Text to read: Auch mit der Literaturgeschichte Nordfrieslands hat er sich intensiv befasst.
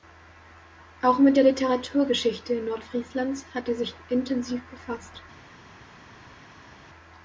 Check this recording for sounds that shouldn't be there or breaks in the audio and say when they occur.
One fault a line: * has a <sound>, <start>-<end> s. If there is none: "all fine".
all fine